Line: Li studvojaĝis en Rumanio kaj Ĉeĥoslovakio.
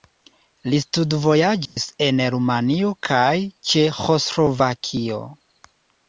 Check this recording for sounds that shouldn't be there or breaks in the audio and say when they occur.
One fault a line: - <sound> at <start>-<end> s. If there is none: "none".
- dropout at 1.7-1.8 s